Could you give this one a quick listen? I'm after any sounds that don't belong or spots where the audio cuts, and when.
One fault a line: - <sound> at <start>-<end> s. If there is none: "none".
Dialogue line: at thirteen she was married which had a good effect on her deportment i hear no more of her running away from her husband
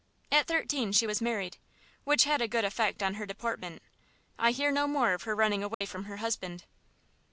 - dropout at 5.7-5.8 s